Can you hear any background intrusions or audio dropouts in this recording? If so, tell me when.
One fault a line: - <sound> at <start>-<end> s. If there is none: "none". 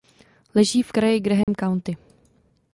- dropout at 1.4-1.5 s